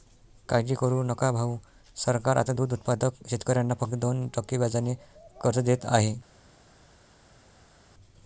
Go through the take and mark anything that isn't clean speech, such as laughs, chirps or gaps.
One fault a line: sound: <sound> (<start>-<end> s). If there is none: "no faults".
no faults